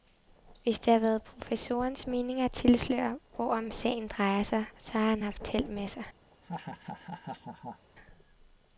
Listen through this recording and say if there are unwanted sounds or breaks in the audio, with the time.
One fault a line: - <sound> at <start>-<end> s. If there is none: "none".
- laugh at 6.3-7.9 s